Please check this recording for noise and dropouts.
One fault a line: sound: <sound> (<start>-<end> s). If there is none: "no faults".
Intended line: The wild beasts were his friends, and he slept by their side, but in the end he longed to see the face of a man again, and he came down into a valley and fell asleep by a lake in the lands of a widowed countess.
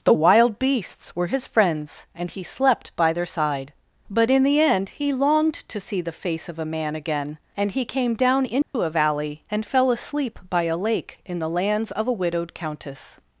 sound: dropout (8.6-8.7 s)